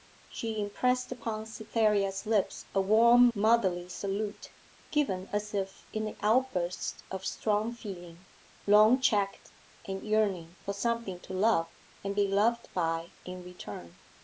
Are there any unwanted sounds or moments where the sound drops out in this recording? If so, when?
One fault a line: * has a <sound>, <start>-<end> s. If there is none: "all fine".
all fine